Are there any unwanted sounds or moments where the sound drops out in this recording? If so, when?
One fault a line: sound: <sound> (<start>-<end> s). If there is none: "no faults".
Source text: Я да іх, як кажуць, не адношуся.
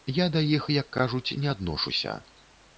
no faults